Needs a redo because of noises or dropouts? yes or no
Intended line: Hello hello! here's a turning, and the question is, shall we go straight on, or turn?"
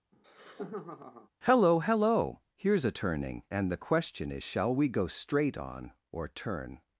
yes